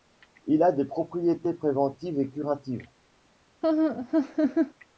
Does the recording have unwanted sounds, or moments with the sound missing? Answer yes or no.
yes